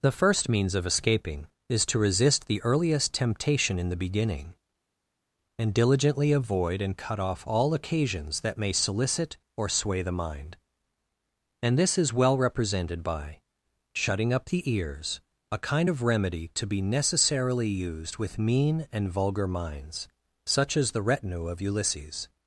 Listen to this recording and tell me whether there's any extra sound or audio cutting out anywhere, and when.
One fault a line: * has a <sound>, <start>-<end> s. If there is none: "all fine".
all fine